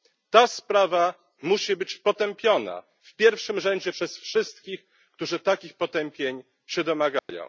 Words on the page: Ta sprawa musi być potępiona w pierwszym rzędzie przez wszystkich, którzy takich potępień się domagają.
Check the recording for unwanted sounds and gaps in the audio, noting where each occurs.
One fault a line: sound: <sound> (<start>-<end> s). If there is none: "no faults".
sound: dropout (7.2-7.3 s)